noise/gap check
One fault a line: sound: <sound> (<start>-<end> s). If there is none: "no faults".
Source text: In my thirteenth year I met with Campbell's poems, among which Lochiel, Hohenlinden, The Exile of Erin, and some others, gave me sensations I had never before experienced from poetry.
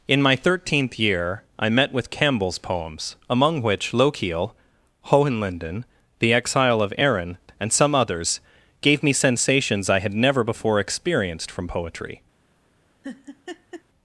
sound: laugh (13.0-13.8 s)